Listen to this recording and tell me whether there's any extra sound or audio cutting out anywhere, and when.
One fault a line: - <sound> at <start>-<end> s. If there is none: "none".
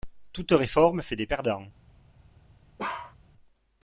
- bark at 2.8-3.2 s